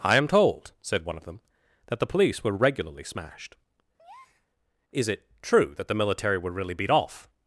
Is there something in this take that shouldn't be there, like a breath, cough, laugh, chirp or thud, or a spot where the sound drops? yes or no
yes